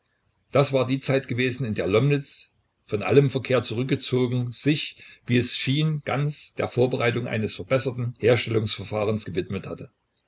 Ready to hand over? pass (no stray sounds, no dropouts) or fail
pass